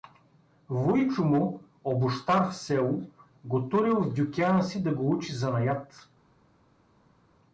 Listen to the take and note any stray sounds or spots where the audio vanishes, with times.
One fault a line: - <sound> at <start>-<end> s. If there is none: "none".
none